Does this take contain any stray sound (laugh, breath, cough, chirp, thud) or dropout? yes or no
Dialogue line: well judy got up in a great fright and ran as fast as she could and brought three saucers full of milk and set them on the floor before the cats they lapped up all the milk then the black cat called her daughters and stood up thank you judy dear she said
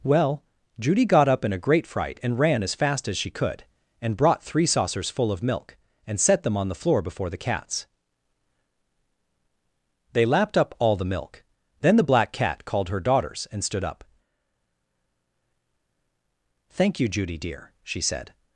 no